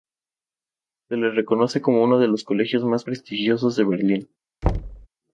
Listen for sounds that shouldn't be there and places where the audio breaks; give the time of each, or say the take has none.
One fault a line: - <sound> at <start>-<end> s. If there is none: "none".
- thud at 4.6-5.1 s